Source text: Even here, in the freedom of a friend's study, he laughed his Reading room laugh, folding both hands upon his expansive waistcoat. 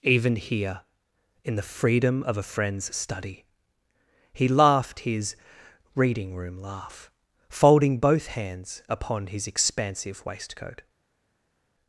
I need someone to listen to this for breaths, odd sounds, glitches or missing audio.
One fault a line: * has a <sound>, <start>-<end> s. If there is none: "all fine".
all fine